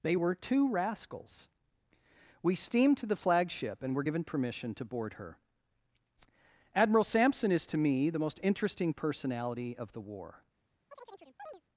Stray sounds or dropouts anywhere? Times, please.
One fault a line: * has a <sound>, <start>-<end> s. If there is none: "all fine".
* has a chirp, 10.9-11.6 s